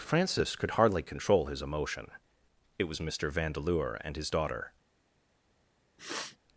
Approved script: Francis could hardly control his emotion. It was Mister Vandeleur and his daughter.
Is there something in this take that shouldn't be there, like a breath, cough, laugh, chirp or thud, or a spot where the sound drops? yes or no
yes